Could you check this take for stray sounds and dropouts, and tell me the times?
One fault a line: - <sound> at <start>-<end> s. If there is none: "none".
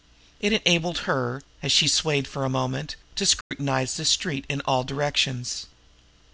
- dropout at 3.4-3.5 s